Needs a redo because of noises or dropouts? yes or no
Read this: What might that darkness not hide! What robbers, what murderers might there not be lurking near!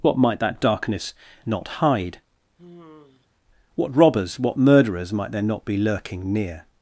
yes